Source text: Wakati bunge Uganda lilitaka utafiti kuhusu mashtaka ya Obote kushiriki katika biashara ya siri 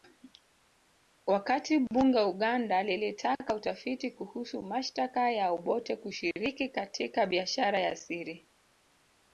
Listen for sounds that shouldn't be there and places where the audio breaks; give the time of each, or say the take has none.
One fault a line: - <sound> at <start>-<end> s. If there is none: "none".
none